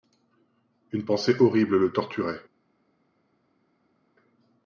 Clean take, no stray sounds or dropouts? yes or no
yes